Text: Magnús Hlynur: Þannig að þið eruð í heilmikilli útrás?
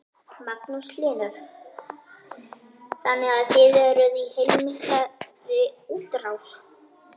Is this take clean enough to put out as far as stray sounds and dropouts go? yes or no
yes